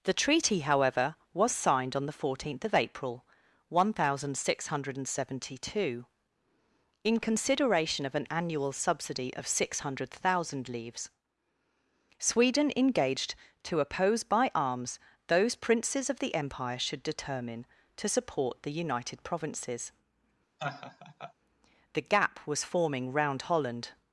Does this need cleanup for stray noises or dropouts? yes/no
yes